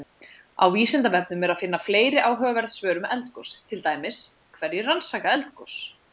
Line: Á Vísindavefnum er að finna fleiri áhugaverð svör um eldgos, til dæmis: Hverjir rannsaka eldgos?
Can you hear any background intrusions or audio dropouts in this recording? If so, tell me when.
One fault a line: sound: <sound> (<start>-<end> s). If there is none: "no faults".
no faults